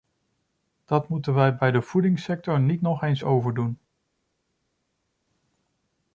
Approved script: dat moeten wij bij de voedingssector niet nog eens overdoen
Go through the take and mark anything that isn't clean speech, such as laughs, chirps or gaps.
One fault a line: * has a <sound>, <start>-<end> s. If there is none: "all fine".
all fine